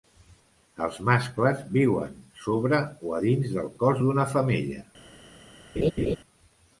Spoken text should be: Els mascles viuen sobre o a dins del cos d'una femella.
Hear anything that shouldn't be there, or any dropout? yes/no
yes